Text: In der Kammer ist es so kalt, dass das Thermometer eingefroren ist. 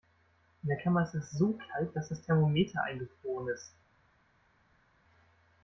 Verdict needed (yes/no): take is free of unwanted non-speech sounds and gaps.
yes